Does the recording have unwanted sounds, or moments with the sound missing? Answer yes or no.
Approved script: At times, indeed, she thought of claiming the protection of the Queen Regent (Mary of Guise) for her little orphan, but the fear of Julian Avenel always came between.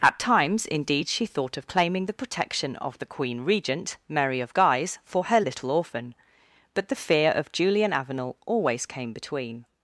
no